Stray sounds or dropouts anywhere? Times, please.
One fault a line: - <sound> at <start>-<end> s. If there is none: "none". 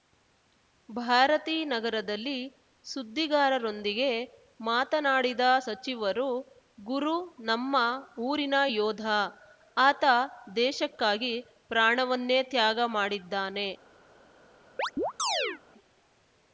- chirp at 14.8-15.6 s